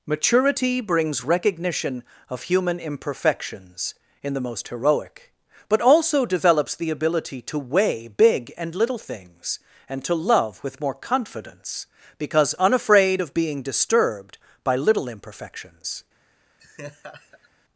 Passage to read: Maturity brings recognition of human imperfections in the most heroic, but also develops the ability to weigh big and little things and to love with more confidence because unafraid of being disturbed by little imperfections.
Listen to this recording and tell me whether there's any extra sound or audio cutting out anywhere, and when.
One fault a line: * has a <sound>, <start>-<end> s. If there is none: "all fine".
* has a laugh, 16.6-17.5 s